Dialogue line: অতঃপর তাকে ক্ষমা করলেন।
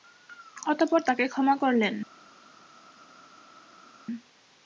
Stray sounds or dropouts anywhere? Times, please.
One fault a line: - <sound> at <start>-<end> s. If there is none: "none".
none